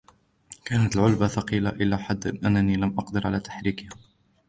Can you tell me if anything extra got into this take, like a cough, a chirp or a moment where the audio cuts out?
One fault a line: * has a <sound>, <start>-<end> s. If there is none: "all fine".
all fine